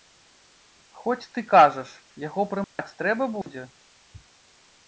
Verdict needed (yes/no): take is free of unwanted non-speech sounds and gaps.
no